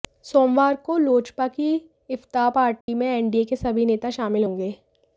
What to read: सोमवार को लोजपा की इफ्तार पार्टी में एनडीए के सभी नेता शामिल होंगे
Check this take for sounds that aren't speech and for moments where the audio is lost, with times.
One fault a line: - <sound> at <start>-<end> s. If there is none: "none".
- dropout at 2.8-2.9 s